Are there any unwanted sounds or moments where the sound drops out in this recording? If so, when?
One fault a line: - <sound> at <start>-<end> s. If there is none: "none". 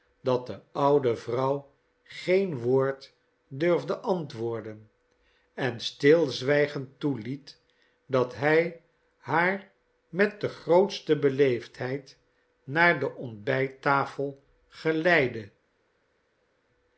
none